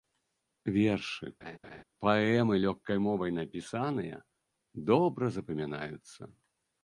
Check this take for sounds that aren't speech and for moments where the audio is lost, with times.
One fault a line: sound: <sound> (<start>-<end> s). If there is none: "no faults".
sound: laugh (1.4-1.8 s)